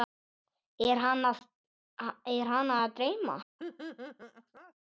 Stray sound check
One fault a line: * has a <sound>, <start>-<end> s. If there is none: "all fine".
* has a laugh, 3.6-4.7 s